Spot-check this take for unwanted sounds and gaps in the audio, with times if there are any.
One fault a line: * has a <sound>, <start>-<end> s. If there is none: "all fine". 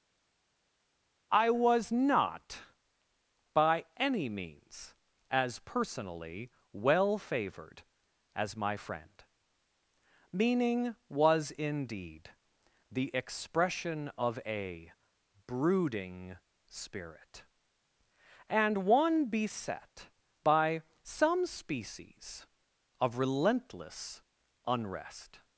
all fine